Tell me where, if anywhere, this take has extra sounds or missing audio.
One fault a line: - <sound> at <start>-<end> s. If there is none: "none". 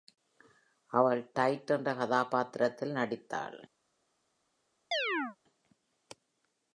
- chirp at 4.9-5.4 s